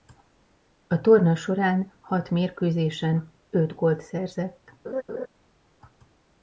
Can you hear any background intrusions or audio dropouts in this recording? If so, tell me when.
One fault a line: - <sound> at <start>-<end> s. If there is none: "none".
- laugh at 4.8-5.3 s